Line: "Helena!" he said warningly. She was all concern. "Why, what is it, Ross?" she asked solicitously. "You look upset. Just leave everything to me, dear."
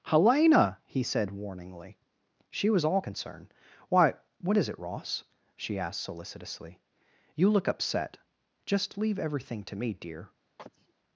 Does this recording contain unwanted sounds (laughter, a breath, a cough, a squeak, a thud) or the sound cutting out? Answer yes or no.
yes